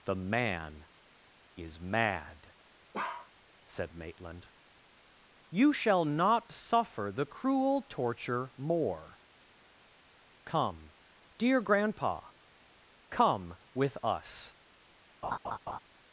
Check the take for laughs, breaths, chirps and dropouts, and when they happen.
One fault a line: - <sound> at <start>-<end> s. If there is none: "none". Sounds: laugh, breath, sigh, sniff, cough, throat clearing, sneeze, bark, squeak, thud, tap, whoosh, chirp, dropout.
- bark at 2.9-3.3 s
- laugh at 15.2-15.8 s